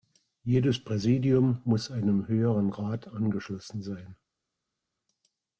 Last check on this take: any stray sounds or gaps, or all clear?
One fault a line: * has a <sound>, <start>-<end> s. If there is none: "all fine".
all fine